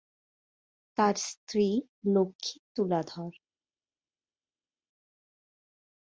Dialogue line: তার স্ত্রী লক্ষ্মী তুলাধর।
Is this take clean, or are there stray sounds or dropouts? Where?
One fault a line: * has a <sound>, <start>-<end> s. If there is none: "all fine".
all fine